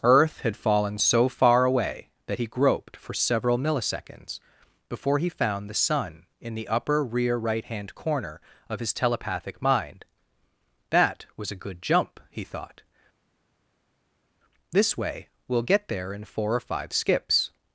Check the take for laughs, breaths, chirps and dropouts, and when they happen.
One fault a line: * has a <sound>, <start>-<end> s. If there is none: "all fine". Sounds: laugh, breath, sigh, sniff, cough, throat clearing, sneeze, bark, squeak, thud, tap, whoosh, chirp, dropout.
all fine